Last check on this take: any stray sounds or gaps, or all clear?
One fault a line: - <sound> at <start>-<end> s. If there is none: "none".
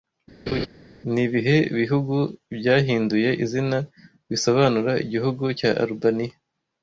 - laugh at 0.5-0.7 s